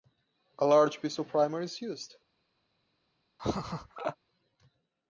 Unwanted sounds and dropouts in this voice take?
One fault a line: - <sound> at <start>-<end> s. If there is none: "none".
- laugh at 3.4-4.2 s